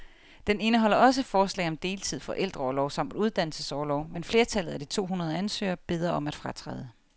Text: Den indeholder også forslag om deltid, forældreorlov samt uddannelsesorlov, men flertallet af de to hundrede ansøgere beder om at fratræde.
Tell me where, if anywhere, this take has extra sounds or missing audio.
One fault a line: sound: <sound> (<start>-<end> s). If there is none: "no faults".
no faults